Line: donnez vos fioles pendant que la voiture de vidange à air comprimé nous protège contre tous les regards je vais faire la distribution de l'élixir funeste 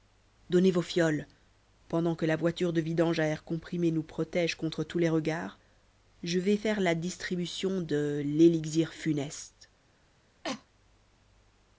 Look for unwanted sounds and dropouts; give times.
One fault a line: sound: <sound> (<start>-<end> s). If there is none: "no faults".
sound: cough (10.4-10.7 s)